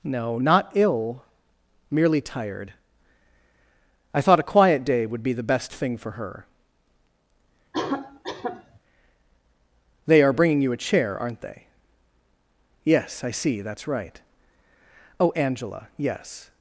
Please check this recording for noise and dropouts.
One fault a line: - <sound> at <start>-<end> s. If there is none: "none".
- cough at 7.7-8.8 s